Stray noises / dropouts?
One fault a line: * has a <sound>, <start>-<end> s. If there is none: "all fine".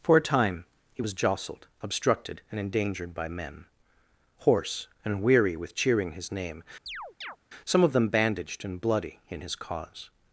* has a chirp, 6.9-7.4 s